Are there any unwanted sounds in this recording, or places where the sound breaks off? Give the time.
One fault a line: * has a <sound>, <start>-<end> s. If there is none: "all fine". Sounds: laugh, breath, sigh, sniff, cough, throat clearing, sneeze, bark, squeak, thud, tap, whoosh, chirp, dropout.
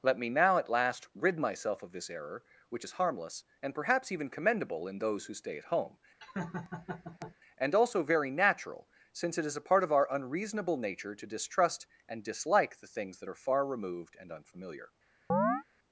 * has a laugh, 6.2-7.4 s
* has a chirp, 15.3-15.6 s